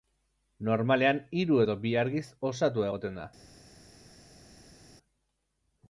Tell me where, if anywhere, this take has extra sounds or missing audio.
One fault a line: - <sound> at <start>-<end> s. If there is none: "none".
none